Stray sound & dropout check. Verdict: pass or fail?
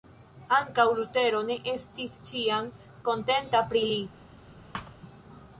fail